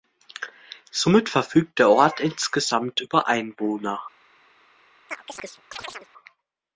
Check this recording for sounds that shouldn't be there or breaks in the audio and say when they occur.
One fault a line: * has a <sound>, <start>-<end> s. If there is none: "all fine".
* has a chirp, 5.1-6.1 s